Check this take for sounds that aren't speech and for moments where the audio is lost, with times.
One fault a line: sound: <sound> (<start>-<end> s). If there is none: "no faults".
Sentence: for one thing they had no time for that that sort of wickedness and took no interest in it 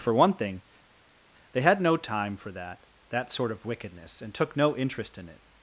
no faults